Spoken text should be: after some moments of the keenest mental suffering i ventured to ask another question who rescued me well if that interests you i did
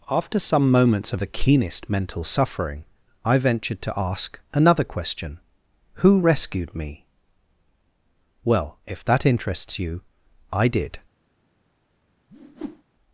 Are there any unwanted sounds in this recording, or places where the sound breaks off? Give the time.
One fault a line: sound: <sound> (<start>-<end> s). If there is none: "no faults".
sound: whoosh (12.3-12.8 s)